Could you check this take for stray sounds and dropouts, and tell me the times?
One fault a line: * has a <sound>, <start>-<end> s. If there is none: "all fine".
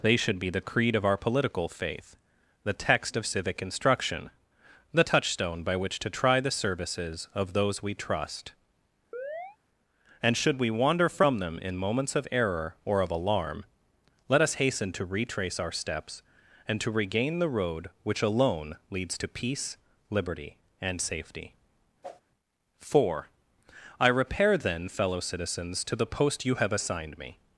* has a chirp, 9.1-9.6 s
* has a whoosh, 22.0-22.2 s